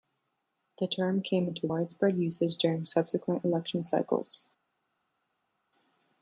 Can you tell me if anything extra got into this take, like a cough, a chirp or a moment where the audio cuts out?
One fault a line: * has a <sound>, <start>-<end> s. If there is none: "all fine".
all fine